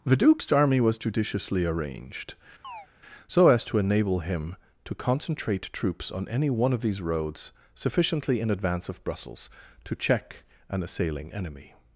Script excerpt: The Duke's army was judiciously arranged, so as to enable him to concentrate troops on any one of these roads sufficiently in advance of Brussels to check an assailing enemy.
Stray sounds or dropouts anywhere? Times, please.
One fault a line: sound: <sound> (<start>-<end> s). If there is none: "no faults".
sound: chirp (2.6-2.9 s)